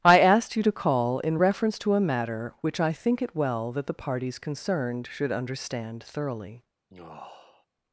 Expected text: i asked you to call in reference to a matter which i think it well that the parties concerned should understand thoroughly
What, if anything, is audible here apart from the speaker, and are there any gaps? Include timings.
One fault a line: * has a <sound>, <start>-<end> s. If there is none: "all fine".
* has a sigh, 6.9-7.7 s